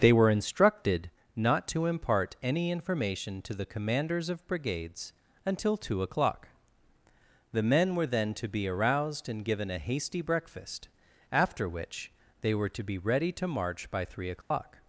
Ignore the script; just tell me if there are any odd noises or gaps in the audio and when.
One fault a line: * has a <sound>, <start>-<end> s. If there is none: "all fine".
* has a dropout, 14.4-14.5 s